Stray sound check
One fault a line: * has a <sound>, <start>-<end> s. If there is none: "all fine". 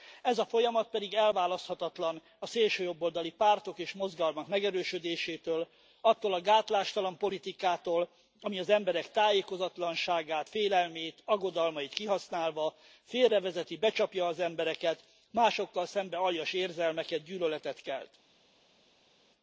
all fine